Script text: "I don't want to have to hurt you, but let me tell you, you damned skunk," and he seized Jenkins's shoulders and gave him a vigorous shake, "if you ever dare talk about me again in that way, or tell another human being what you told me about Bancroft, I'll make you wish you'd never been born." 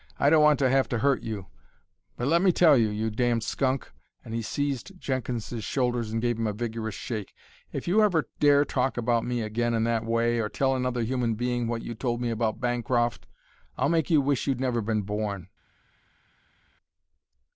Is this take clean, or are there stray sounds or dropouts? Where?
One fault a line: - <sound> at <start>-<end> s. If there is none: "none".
none